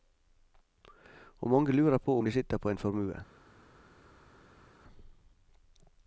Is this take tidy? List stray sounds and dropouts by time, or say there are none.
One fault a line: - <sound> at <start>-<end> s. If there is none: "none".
none